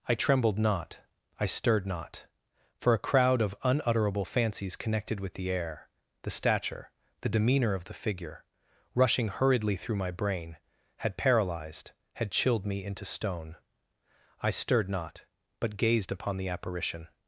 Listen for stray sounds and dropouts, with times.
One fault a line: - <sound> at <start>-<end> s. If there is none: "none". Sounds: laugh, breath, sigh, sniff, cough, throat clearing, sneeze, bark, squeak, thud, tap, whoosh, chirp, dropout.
none